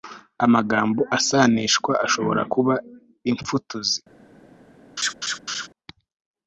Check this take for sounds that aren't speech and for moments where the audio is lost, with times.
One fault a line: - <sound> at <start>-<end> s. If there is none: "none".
- laugh at 5.0-5.7 s